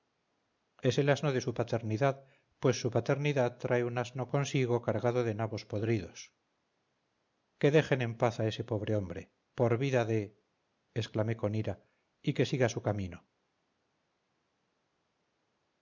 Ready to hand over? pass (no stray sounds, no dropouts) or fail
pass